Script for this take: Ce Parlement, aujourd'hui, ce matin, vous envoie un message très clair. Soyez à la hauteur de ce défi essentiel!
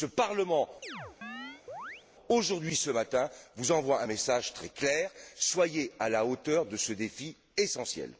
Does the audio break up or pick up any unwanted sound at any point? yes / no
yes